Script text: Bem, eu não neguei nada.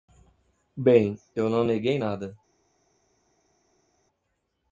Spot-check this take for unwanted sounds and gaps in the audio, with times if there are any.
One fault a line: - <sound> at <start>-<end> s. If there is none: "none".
none